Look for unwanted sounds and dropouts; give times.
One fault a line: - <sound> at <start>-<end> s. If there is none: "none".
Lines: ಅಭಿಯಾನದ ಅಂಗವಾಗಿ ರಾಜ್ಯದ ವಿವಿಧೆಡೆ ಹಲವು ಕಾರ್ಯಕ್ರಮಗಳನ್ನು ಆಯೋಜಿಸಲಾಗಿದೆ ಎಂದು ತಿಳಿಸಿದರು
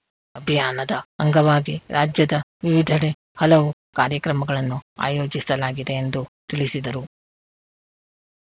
none